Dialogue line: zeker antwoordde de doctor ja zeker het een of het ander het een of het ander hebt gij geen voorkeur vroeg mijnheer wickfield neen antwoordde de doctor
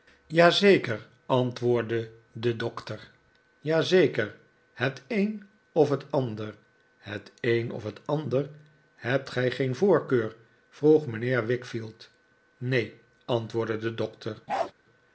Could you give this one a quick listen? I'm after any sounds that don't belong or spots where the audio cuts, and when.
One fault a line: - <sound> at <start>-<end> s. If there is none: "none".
- bark at 14.5-14.7 s